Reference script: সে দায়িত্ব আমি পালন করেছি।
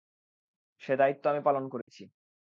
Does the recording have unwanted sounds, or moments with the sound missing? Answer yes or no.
yes